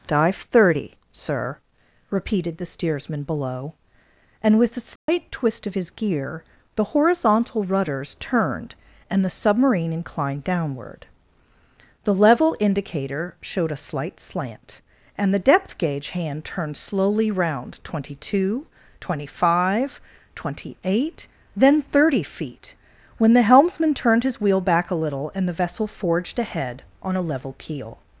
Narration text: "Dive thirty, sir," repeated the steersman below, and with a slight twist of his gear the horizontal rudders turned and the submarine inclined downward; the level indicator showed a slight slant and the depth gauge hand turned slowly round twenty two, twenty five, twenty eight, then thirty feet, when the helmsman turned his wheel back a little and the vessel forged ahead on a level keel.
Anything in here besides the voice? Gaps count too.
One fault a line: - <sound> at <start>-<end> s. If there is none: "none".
- dropout at 5.0-5.1 s